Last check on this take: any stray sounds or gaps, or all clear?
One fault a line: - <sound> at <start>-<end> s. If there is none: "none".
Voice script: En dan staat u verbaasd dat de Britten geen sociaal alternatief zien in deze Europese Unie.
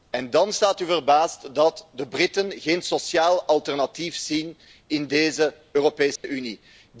- dropout at 6.2-6.2 s